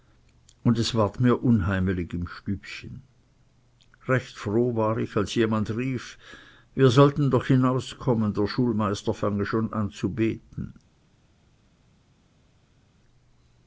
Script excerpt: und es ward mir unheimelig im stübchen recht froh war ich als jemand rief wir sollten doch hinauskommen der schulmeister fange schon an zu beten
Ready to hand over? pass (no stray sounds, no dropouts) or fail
pass